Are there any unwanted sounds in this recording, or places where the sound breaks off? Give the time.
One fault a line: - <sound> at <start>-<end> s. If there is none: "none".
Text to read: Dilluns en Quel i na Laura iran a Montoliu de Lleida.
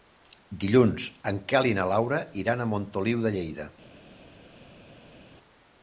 none